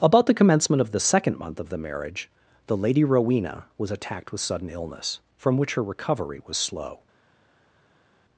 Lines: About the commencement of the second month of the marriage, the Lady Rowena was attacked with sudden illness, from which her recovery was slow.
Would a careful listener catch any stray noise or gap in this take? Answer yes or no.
no